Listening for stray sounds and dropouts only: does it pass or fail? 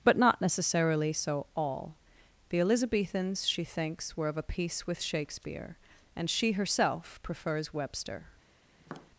fail